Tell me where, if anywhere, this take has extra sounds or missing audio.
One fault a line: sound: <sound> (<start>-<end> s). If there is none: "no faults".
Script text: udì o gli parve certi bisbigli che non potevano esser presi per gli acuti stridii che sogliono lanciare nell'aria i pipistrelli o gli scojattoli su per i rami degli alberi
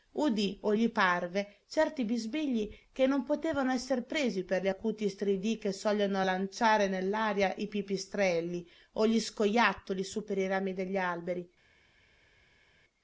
no faults